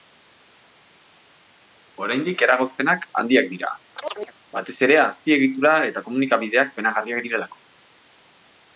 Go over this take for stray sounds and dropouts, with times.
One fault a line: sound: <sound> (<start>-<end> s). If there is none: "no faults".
sound: chirp (4.0-4.3 s)